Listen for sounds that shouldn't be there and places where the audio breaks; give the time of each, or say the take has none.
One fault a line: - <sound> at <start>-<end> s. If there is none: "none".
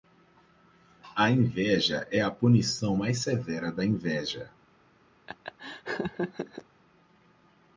- laugh at 5.3-6.6 s